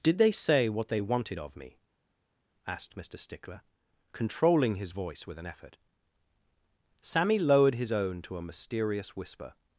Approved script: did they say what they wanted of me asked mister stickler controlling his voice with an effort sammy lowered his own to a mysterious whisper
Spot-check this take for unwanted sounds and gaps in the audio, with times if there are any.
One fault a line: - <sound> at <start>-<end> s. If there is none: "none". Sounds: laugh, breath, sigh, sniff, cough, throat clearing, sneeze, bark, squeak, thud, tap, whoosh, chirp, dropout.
none